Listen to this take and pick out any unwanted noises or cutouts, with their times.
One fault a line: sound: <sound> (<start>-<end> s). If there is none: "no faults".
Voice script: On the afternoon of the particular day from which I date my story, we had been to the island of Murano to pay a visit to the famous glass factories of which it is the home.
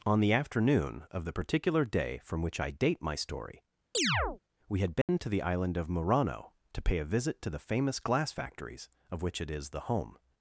sound: chirp (3.9-4.4 s)
sound: dropout (5.0-5.1 s)